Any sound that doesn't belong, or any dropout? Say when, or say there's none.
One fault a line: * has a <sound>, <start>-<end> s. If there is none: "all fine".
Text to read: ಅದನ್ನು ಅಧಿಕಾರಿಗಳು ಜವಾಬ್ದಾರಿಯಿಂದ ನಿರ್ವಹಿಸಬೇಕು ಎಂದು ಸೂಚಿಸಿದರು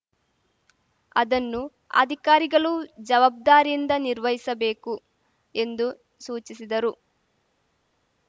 all fine